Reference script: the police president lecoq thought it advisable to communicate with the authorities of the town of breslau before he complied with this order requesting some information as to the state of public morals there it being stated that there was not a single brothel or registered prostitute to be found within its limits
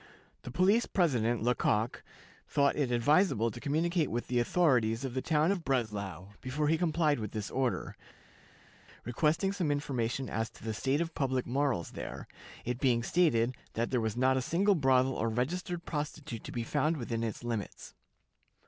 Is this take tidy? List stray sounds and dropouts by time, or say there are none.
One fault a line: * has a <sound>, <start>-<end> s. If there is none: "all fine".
all fine